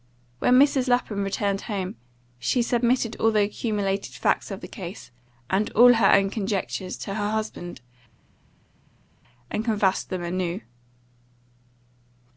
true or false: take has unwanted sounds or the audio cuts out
false